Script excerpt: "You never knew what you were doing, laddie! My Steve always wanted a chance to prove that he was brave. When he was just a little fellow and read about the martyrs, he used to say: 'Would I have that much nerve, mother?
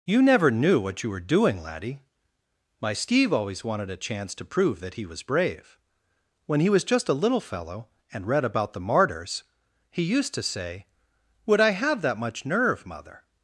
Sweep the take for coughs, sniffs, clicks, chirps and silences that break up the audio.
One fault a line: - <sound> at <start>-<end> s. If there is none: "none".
none